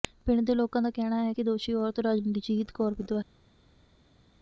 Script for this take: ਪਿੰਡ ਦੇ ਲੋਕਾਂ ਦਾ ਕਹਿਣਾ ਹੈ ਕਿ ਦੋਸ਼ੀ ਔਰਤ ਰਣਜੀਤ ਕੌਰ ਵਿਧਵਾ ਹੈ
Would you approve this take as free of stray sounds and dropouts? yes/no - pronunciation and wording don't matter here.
yes